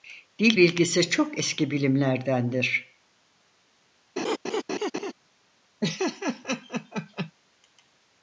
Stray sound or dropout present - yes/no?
yes